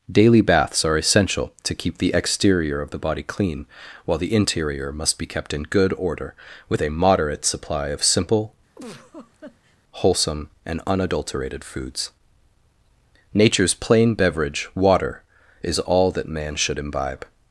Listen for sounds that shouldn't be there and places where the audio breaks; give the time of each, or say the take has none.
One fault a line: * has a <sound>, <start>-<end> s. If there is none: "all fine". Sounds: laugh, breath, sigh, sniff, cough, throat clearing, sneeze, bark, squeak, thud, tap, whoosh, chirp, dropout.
* has a laugh, 8.8-9.8 s